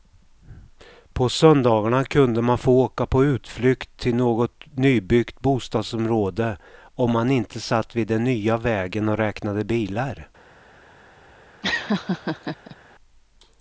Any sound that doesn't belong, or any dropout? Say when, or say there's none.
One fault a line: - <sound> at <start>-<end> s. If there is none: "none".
- laugh at 11.6-12.8 s